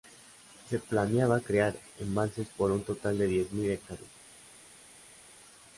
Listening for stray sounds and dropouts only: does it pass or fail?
pass